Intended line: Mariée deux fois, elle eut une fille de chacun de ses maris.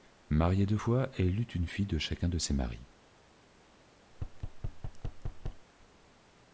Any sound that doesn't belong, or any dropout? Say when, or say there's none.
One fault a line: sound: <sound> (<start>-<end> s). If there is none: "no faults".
sound: thud (4.1-5.7 s)